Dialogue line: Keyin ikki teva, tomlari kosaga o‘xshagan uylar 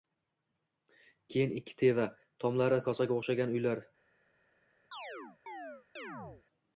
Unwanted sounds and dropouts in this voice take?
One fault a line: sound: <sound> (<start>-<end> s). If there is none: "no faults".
sound: chirp (4.9-6.4 s)